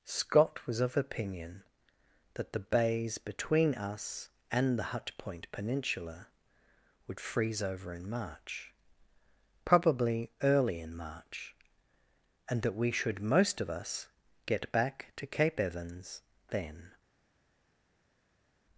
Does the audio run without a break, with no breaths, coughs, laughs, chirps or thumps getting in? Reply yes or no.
yes